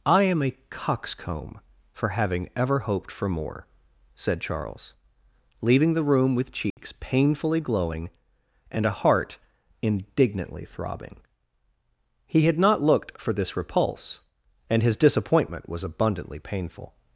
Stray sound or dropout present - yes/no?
yes